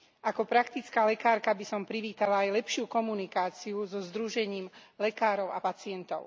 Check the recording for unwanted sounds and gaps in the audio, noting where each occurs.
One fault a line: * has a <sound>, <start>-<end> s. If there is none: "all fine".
all fine